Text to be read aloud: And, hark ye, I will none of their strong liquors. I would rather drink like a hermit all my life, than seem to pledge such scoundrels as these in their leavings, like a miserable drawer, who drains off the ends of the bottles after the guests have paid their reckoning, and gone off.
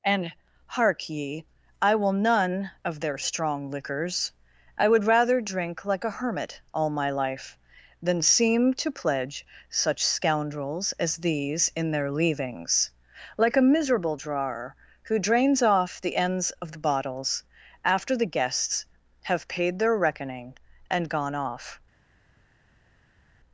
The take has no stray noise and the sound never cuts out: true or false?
true